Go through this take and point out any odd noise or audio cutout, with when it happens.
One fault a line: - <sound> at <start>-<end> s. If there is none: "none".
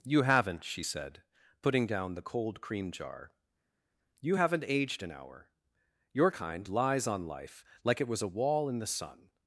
none